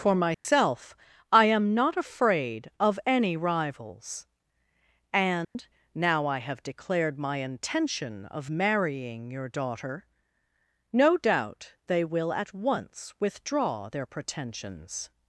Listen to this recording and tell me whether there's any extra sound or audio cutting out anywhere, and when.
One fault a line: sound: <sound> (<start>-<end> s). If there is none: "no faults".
sound: dropout (0.3-0.4 s)
sound: dropout (5.4-5.6 s)